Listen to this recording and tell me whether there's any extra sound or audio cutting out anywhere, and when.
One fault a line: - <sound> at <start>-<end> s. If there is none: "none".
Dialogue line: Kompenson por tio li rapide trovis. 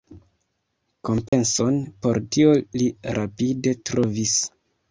- dropout at 1.3-1.3 s